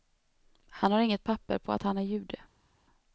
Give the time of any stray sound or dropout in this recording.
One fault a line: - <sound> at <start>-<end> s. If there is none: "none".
none